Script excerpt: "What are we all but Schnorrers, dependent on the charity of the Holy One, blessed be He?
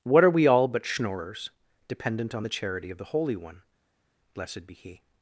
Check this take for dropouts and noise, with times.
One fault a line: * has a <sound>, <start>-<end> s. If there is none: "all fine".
all fine